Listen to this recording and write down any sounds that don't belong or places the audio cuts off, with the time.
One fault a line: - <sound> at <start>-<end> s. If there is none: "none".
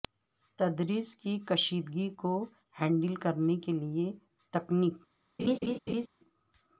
- laugh at 5.4-6.1 s